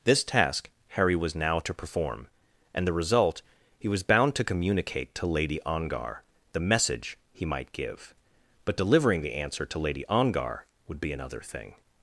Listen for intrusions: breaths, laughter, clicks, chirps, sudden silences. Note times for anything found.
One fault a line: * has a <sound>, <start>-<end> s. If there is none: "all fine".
all fine